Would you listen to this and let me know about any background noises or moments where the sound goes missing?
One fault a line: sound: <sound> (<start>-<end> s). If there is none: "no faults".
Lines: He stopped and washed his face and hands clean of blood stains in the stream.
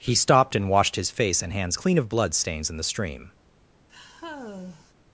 sound: sigh (3.9-4.9 s)